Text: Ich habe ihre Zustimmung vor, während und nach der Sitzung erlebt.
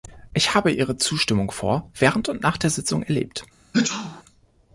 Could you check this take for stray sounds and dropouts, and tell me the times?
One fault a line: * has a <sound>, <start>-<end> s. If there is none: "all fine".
* has a sneeze, 3.7-4.2 s